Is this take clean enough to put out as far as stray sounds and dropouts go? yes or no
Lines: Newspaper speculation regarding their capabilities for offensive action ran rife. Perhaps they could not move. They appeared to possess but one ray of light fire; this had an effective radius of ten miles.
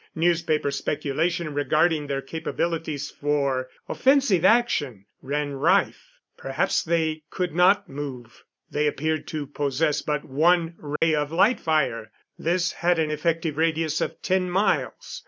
no